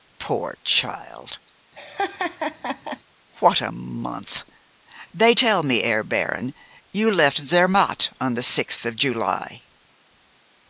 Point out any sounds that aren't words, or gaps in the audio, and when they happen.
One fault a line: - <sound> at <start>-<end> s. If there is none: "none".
- laugh at 1.7-3.0 s